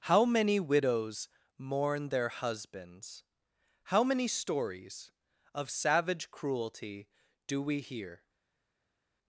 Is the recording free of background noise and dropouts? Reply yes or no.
yes